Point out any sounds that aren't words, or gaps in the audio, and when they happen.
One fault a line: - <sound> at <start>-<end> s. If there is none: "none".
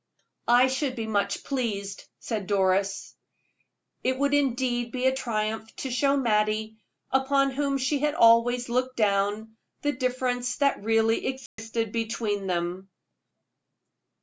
- dropout at 11.5-11.6 s